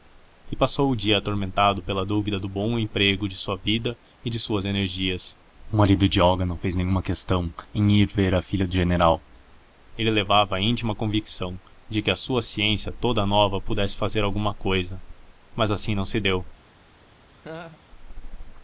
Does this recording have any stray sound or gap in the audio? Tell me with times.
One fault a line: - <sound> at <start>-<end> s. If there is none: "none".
- laugh at 17.4-17.8 s